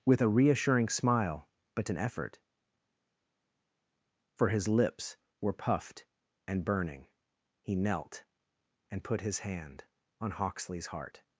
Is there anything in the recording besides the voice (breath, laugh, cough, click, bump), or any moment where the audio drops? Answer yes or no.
no